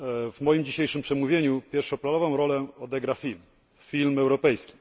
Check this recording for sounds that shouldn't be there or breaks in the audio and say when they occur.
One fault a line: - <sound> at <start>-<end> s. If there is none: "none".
none